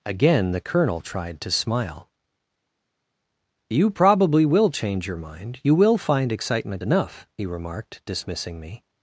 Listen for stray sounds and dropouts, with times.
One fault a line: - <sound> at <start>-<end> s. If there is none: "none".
none